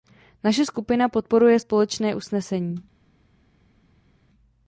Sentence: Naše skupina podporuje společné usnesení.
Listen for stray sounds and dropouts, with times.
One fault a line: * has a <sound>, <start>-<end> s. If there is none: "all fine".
all fine